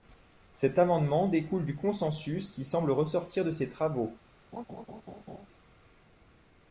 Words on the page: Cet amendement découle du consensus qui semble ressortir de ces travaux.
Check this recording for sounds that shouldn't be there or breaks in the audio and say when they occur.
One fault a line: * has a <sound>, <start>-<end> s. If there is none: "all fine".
* has a laugh, 4.5-5.5 s